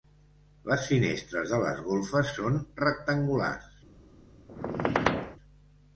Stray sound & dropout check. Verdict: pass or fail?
fail